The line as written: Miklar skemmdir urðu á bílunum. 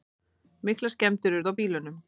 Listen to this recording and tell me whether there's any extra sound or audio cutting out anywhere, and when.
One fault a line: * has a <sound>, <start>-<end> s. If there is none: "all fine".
all fine